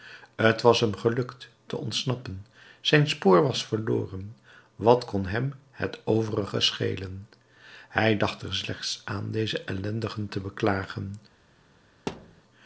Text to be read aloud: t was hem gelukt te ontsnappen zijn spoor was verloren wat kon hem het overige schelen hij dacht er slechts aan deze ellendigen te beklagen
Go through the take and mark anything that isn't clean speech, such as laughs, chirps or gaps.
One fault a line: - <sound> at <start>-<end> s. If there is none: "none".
- thud at 12.1-12.4 s